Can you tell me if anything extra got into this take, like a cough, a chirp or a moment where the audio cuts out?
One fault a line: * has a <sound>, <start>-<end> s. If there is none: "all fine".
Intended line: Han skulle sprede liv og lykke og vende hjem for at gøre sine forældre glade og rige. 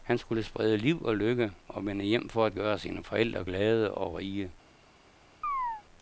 * has a chirp, 5.4-5.8 s